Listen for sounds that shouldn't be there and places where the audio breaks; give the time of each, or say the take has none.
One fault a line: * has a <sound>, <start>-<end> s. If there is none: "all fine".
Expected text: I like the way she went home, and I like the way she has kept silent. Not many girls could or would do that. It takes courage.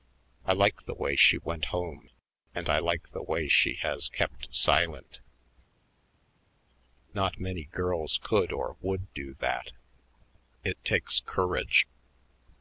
all fine